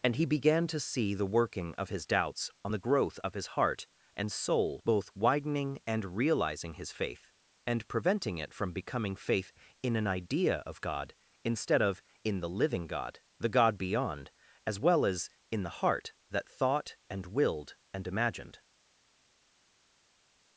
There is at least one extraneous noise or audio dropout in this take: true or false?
false